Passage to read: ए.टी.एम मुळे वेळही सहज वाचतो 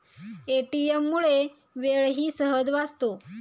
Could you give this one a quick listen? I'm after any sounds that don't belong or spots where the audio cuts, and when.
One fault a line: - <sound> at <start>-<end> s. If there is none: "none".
none